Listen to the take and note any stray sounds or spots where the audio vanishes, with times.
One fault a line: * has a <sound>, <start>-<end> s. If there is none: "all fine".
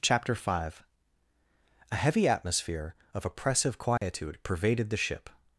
* has a dropout, 4.0-4.0 s